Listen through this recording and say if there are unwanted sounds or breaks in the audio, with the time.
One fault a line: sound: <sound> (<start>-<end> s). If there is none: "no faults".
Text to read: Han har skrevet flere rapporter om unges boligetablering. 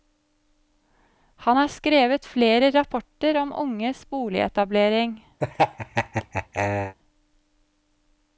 sound: laugh (5.4-7.0 s)